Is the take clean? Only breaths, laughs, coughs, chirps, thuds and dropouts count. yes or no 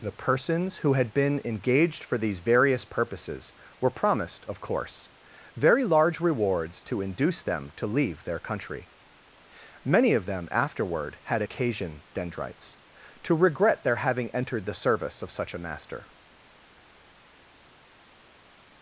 yes